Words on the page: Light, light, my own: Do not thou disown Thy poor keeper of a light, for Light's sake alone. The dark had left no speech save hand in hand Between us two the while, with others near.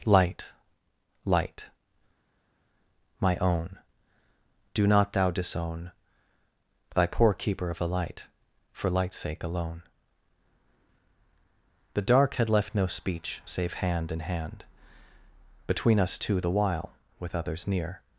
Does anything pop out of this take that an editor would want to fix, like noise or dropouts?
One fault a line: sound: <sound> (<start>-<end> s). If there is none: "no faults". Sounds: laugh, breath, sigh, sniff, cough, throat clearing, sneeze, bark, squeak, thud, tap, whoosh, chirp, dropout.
no faults